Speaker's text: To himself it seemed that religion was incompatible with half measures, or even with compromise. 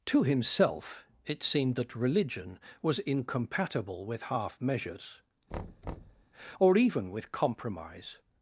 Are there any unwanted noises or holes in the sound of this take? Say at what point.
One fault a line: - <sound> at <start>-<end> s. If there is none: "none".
- thud at 5.5-6.3 s